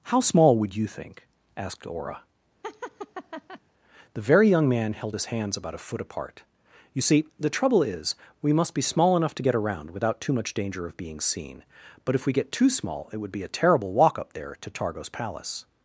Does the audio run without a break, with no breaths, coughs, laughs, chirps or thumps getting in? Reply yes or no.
no